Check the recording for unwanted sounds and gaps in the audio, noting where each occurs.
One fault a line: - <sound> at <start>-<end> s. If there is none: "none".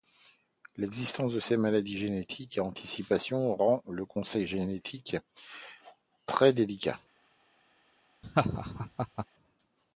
- laugh at 8.2-9.3 s